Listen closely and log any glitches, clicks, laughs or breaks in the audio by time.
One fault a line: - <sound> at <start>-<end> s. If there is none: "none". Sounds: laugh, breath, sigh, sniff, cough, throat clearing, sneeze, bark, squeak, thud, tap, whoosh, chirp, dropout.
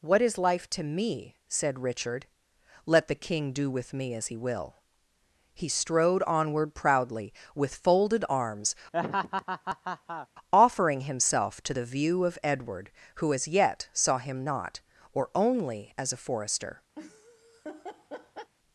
- laugh at 8.9-10.3 s
- laugh at 17.0-18.5 s